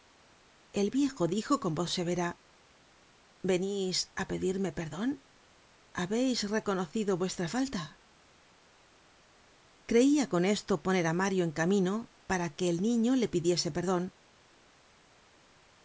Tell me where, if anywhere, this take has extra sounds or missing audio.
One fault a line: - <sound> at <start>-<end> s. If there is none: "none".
none